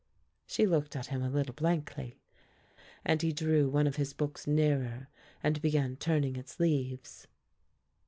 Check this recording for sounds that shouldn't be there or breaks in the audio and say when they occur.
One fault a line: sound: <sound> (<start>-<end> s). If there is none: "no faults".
no faults